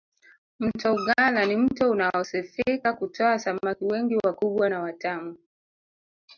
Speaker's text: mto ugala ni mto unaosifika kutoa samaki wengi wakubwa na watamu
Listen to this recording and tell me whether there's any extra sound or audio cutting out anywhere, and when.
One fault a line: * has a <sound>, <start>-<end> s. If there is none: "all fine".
all fine